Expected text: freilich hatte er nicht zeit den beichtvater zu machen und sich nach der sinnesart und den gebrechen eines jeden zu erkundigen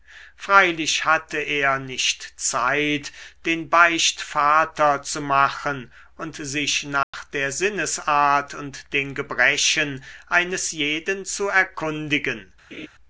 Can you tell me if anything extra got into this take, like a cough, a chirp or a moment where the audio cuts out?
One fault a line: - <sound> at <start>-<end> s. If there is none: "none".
- dropout at 7.0-7.1 s
- laugh at 12.7-12.9 s